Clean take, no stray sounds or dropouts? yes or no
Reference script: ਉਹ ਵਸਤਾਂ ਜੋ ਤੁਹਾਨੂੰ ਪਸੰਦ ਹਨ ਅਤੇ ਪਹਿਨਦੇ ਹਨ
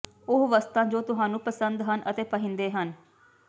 yes